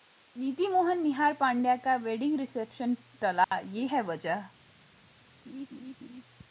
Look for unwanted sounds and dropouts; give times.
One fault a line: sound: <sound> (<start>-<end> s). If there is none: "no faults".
sound: dropout (3.4-3.5 s)
sound: laugh (5.5-6.2 s)